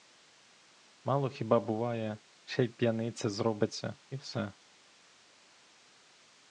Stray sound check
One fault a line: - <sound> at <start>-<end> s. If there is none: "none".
none